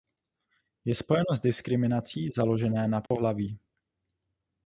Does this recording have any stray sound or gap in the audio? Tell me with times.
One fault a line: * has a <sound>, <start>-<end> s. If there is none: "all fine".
* has a dropout, 3.1-3.1 s